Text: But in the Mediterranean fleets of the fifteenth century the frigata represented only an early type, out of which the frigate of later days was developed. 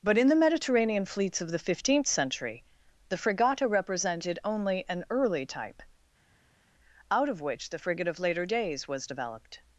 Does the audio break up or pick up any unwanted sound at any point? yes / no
no